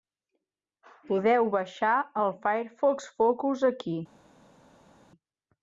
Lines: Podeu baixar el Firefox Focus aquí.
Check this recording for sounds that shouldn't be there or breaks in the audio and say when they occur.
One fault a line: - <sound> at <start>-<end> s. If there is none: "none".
none